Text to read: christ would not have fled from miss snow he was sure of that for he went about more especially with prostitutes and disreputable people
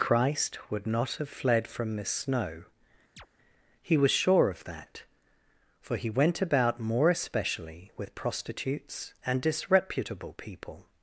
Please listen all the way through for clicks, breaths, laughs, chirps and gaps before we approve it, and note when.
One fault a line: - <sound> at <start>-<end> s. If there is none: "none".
- chirp at 3.2-3.3 s